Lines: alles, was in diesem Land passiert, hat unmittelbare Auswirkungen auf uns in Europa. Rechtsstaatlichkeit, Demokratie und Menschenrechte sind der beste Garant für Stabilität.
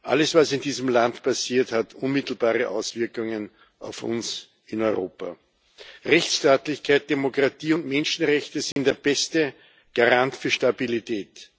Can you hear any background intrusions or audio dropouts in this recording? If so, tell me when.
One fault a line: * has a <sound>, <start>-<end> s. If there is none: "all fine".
* has a dropout, 8.7-8.8 s